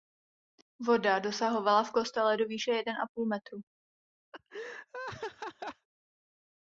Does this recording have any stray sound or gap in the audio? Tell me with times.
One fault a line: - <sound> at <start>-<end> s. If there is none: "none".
- laugh at 4.3-5.9 s